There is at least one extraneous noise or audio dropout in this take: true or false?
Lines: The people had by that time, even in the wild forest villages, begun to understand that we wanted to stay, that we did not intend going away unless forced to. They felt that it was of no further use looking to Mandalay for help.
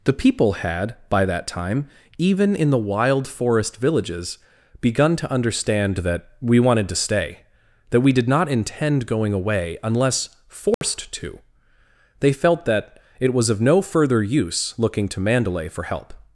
true